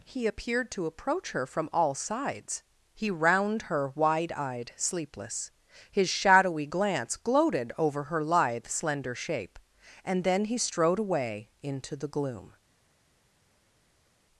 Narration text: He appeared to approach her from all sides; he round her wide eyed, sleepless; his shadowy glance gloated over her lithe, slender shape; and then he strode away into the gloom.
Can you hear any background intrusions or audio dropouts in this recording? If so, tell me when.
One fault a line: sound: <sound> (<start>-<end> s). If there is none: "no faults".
no faults